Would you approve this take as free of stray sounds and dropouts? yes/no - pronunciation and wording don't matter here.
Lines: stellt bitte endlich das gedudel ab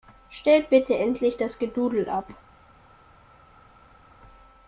yes